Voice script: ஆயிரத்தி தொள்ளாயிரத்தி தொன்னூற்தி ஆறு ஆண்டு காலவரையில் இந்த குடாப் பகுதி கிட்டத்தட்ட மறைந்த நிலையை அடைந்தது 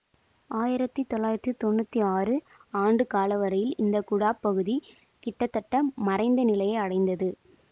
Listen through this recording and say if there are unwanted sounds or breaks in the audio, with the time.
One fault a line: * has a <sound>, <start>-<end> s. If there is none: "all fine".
all fine